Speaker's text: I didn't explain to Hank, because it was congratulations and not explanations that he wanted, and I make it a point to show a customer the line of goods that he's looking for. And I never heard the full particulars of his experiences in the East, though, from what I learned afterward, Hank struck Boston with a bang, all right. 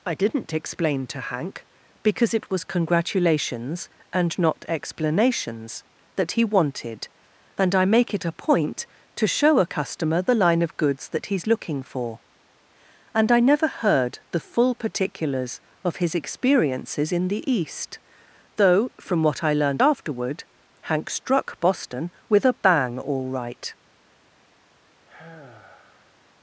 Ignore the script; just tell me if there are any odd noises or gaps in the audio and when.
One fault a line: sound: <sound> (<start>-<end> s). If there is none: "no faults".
sound: sigh (25.1-26.2 s)